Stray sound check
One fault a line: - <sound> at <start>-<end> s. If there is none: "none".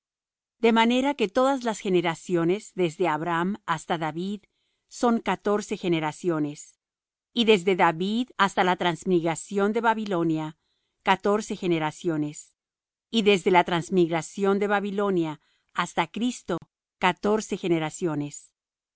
- dropout at 16.6-16.6 s